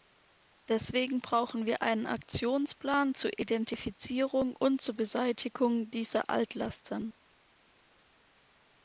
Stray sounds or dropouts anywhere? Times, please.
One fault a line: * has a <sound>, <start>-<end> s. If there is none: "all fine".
all fine